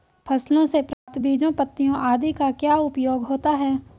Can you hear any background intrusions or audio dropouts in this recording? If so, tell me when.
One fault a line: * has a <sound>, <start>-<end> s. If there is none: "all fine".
* has a dropout, 0.9-1.1 s